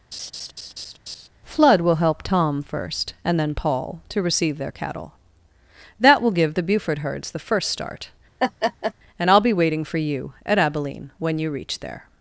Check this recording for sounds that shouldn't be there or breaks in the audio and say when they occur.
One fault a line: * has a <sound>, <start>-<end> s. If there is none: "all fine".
* has a laugh, 0.1-1.3 s
* has a laugh, 8.4-8.9 s